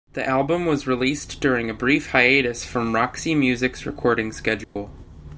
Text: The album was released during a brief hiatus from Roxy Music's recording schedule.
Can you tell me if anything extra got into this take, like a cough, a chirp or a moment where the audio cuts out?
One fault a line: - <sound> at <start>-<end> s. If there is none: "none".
- dropout at 4.6-4.8 s